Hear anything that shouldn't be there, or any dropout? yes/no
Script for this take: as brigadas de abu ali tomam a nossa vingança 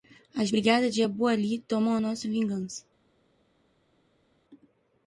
no